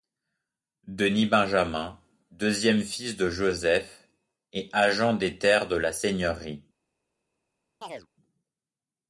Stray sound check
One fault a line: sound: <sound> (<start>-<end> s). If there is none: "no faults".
sound: chirp (7.8-8.1 s)